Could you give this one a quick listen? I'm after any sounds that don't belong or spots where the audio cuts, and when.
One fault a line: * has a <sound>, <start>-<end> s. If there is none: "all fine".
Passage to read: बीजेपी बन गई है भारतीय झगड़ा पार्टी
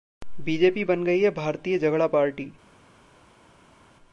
all fine